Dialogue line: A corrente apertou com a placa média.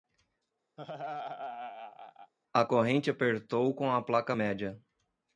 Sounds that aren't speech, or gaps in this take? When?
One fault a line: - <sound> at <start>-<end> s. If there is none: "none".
- laugh at 0.8-2.3 s